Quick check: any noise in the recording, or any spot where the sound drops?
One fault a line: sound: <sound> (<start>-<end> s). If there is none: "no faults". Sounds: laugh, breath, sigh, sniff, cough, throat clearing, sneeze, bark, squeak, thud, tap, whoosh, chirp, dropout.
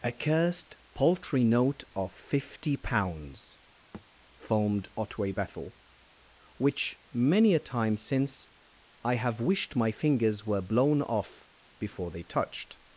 sound: thud (3.9-4.1 s)